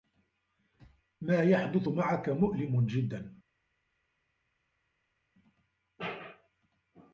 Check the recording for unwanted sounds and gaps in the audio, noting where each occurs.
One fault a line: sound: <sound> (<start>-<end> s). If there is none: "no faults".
no faults